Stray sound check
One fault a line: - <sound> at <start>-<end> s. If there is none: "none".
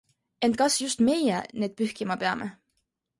none